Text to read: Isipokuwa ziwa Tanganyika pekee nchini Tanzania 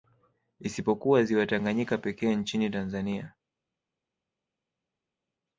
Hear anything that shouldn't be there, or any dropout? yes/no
no